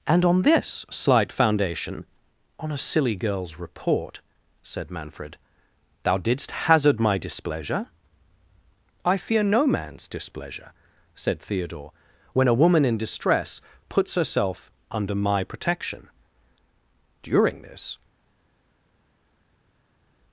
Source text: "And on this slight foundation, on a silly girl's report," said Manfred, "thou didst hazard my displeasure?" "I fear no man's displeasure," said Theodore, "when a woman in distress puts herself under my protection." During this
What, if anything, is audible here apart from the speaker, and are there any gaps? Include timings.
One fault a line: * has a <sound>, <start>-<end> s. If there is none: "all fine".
all fine